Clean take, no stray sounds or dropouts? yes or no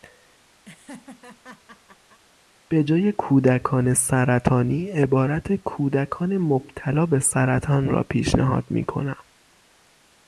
no